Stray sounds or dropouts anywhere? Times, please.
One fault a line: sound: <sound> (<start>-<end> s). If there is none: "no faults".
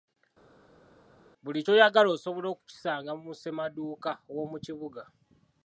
no faults